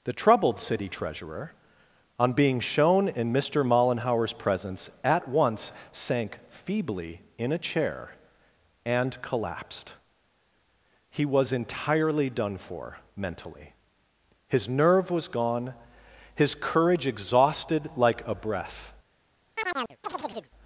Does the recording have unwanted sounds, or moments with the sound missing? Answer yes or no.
yes